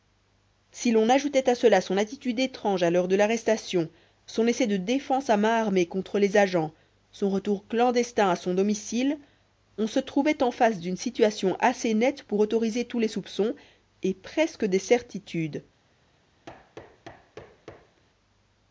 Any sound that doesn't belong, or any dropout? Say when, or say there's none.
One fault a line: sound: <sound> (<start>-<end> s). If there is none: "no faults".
sound: thud (16.5-18.0 s)